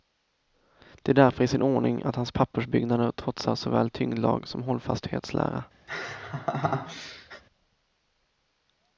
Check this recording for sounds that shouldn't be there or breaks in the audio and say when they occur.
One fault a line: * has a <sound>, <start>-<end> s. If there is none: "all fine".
* has a laugh, 5.9-7.4 s